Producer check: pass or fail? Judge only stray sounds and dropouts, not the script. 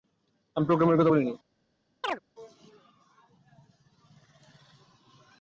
fail